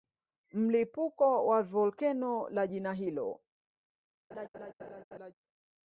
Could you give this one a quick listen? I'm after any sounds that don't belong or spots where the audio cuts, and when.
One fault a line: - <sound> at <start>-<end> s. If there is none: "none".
- laugh at 4.3-5.3 s